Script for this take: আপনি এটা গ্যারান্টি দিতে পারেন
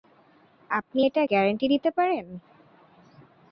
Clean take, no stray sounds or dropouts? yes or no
yes